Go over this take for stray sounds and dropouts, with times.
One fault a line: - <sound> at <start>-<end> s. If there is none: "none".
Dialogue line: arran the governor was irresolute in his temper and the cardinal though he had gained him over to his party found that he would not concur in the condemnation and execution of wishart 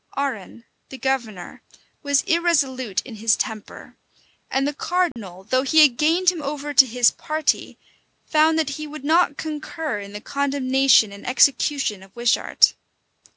- dropout at 5.1-5.2 s